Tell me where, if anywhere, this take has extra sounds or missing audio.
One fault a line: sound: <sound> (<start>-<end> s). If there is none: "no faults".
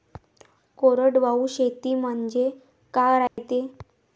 sound: dropout (3.3-3.4 s)